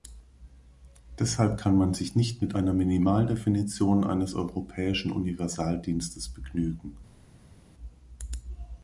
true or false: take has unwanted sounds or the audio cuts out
false